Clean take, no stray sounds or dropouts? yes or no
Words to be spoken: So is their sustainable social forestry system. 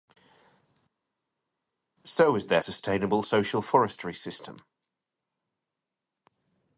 yes